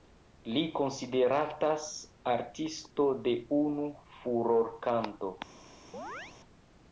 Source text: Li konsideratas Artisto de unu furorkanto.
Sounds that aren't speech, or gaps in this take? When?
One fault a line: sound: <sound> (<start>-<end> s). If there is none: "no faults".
sound: chirp (5.9-6.4 s)